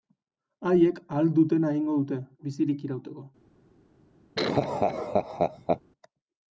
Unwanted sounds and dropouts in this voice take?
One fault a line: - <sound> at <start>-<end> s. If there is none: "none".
- laugh at 4.4-5.8 s